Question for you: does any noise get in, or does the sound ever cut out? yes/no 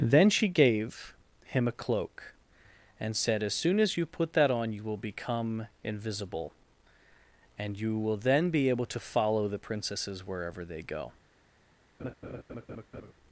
yes